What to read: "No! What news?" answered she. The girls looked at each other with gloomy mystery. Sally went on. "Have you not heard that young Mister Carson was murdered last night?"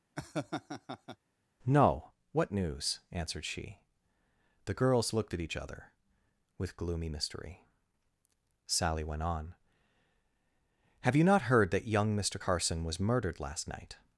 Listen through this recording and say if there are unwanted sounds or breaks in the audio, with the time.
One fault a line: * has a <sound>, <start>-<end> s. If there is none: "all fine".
* has a laugh, 0.2-1.2 s